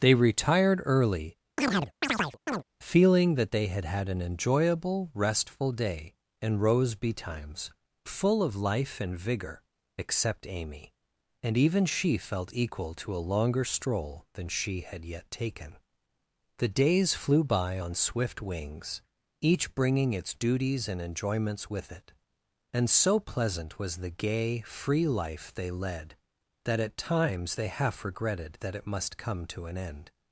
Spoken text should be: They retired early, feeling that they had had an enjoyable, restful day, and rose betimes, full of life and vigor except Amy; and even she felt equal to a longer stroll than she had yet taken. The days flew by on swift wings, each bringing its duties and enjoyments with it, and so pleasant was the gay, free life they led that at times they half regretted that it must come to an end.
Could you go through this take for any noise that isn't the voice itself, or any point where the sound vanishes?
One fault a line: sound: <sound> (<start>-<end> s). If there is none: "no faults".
sound: chirp (1.6-2.6 s)